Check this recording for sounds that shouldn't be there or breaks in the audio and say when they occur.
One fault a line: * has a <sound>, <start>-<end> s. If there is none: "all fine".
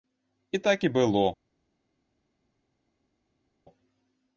all fine